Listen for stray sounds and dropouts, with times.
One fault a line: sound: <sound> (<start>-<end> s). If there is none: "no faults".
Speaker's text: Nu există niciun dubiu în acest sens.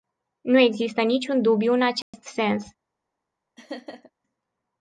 sound: dropout (2.0-2.1 s)
sound: laugh (3.6-4.1 s)